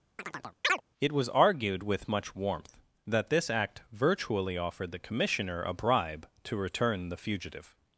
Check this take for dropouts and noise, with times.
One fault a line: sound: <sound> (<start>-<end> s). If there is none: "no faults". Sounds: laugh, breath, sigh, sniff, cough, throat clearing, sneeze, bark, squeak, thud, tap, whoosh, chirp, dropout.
sound: chirp (0.2-0.8 s)